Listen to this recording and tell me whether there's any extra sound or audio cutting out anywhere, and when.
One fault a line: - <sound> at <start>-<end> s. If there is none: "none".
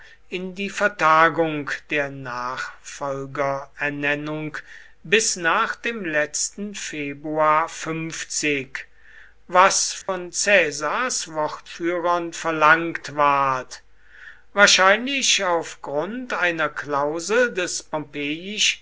- dropout at 10.0-10.1 s